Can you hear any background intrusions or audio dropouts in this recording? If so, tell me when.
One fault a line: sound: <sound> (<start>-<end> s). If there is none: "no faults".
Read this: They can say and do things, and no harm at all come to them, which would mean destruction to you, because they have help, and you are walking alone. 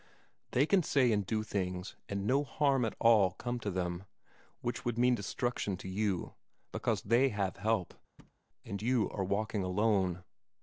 sound: thud (8.2-8.4 s)